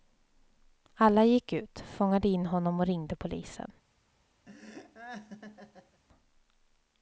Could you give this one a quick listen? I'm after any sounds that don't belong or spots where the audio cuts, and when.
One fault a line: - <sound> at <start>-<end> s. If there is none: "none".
- laugh at 4.5-6.0 s